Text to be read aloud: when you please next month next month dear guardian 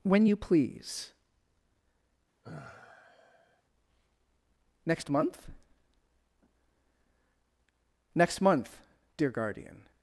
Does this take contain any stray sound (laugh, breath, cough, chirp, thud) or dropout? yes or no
yes